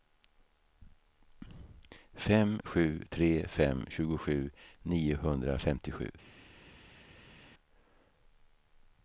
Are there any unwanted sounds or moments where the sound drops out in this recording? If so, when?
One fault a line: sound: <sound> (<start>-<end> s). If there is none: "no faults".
no faults